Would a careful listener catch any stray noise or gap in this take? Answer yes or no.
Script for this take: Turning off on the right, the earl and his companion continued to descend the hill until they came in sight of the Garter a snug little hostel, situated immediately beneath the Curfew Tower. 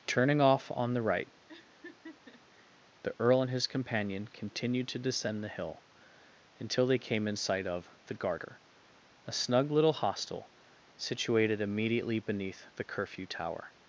yes